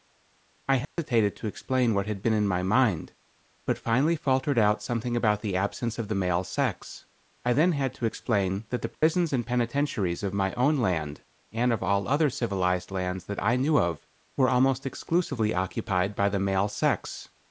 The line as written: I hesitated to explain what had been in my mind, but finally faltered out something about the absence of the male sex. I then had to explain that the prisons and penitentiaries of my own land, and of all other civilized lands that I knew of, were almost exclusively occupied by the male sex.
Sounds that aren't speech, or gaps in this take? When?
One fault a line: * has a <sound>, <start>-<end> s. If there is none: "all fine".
* has a dropout, 0.8-1.0 s
* has a dropout, 8.9-9.0 s